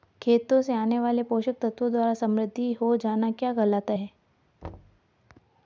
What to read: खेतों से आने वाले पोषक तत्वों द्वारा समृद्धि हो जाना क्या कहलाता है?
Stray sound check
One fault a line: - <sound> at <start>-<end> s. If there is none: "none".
- thud at 4.6-5.0 s